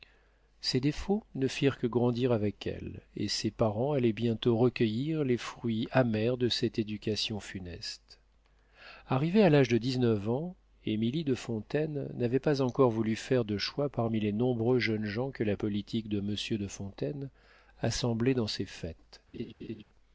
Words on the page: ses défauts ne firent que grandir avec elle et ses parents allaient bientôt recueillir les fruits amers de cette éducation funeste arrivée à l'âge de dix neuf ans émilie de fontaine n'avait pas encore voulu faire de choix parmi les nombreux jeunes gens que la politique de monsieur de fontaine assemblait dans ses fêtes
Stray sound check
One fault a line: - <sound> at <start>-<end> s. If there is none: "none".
- laugh at 19.3-19.8 s